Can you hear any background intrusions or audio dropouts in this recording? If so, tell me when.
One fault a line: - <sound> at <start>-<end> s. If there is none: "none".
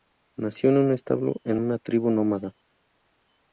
none